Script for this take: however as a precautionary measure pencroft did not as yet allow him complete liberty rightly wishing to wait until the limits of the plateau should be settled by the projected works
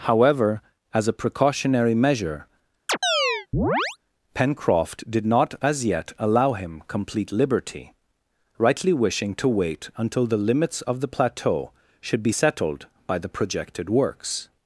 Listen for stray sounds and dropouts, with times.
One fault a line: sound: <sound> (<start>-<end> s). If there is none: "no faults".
sound: chirp (2.9-4.0 s)